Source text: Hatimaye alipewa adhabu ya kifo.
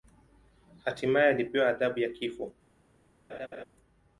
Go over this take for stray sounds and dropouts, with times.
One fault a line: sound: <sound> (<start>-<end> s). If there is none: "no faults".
sound: laugh (3.3-3.6 s)